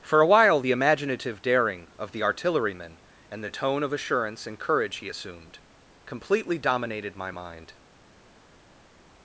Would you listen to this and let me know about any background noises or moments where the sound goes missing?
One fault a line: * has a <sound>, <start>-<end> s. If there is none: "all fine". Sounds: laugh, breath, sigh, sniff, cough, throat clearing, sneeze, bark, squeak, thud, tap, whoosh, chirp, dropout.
all fine